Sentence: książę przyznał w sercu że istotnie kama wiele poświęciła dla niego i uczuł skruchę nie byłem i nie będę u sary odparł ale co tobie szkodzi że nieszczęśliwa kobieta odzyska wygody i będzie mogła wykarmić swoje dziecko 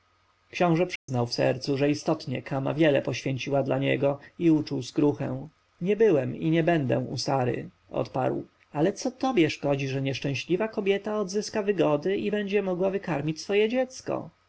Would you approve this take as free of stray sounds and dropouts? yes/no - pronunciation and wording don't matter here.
no